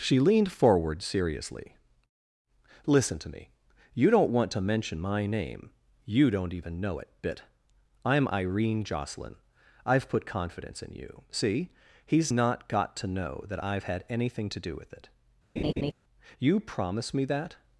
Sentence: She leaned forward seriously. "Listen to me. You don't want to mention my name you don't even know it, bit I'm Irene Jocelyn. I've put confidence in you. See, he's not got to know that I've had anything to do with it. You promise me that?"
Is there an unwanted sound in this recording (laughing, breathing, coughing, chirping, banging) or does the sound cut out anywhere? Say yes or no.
yes